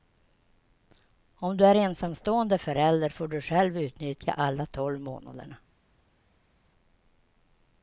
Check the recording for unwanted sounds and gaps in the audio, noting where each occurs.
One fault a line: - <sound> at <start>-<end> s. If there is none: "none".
none